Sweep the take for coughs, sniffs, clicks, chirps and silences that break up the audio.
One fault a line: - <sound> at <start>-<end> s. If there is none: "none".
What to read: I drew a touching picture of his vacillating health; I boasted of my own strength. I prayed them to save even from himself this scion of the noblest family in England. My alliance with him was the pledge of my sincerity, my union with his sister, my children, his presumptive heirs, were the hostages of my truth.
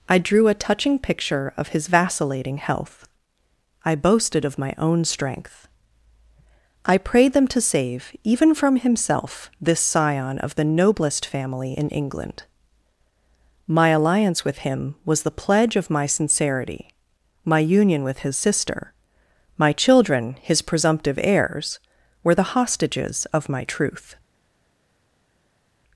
none